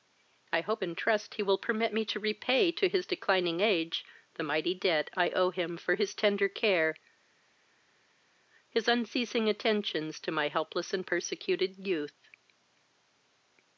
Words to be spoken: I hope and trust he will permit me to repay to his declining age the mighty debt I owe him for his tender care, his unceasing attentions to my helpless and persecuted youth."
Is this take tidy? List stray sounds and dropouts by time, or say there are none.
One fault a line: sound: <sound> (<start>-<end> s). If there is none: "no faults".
no faults